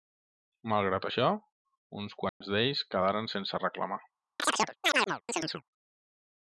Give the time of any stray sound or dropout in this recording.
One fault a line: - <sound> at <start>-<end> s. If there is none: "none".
- dropout at 2.3-2.4 s
- chirp at 4.4-5.6 s